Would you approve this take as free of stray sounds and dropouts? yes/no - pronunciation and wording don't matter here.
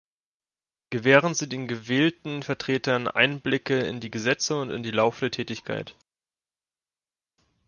yes